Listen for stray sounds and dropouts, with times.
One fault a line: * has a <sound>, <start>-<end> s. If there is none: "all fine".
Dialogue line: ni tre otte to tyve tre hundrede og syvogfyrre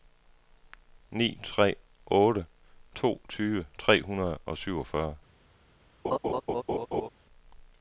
* has a laugh, 6.0-7.1 s